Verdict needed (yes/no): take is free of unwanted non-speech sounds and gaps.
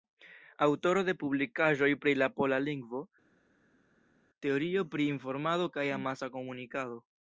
yes